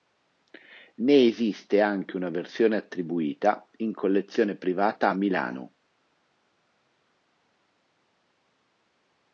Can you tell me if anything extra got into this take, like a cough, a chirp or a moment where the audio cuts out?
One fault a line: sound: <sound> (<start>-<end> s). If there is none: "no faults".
no faults